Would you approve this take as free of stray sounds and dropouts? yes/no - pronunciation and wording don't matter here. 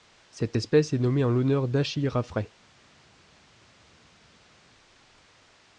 yes